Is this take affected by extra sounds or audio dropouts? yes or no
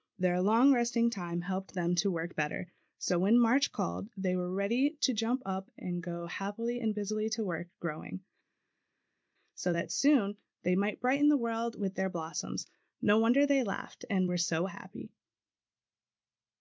no